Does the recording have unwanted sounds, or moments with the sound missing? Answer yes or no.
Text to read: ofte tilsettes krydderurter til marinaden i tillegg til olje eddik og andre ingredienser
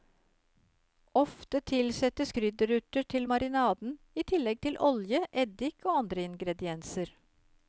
no